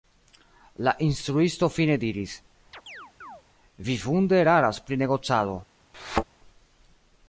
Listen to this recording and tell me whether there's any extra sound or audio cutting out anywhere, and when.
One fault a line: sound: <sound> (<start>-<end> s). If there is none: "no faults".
sound: chirp (2.7-3.4 s)
sound: thud (5.9-6.2 s)